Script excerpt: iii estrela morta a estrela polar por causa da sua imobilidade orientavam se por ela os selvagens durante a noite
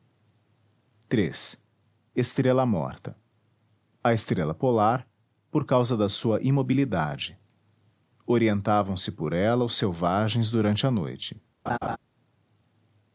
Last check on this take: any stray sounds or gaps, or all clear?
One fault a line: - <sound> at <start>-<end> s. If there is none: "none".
- laugh at 11.7-12.0 s